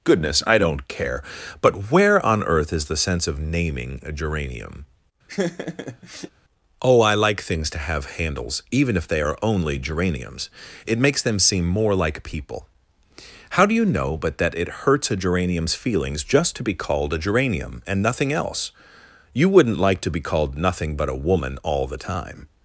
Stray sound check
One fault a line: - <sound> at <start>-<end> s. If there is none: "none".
- laugh at 5.3-6.3 s